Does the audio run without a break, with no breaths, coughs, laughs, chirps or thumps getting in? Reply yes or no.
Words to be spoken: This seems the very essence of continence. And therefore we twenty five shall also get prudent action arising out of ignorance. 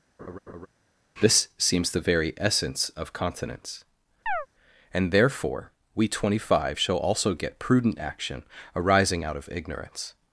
no